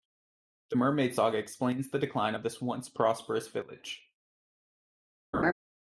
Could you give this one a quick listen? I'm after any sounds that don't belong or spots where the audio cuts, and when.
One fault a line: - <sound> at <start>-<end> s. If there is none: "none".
- laugh at 5.3-5.5 s